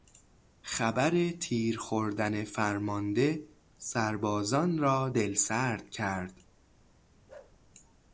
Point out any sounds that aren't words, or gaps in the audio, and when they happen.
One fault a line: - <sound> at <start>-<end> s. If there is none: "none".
- bark at 7.3-7.6 s